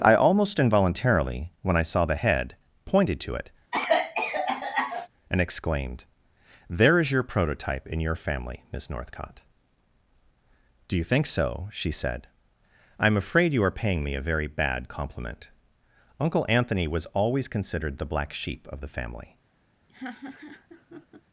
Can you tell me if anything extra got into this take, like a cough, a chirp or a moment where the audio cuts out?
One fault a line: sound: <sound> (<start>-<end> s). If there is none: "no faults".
sound: cough (3.7-5.1 s)
sound: laugh (19.9-21.2 s)